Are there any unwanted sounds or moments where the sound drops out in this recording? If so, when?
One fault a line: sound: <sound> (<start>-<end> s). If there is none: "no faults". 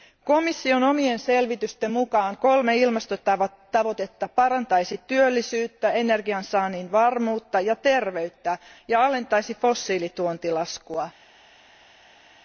no faults